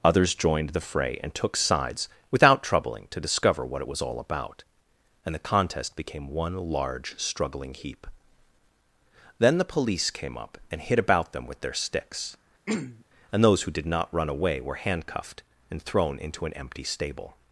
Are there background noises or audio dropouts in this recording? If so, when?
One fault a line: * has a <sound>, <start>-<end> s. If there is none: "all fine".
* has a throat clearing, 12.7-13.0 s